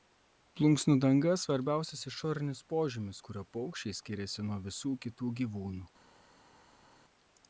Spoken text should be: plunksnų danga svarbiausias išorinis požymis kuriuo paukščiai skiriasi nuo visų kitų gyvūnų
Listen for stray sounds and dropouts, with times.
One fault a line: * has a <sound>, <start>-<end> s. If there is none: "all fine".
all fine